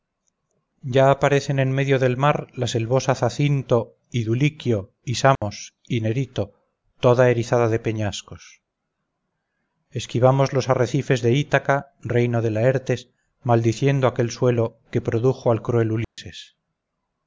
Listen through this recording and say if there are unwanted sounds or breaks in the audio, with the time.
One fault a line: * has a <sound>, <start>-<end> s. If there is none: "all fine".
* has a dropout, 5.4-5.4 s
* has a dropout, 16.0-16.2 s